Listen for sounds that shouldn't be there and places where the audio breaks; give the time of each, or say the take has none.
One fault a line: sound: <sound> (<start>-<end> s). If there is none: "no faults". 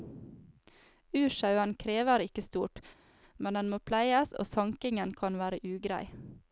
no faults